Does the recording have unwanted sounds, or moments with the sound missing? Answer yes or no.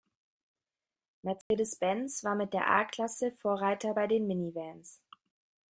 yes